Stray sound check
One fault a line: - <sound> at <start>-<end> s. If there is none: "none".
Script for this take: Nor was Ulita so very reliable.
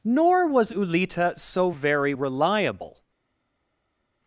none